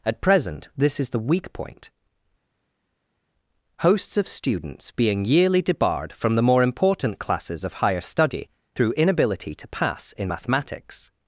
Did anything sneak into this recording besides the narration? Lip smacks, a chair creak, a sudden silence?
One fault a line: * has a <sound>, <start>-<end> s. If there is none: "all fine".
all fine